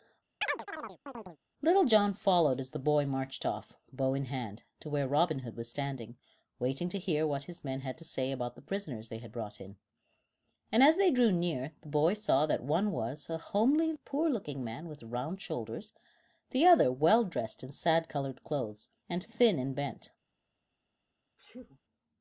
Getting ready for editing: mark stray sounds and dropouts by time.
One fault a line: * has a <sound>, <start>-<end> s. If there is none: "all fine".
* has a chirp, 0.4-1.4 s
* has a sneeze, 21.4-21.8 s